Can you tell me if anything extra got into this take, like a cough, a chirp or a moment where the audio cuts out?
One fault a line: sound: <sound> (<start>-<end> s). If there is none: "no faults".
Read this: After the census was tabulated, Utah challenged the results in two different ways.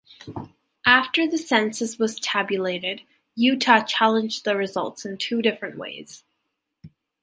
no faults